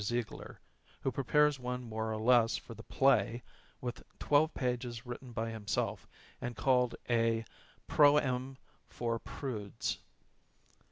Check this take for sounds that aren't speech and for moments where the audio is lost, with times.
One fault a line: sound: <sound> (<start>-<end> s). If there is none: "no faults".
no faults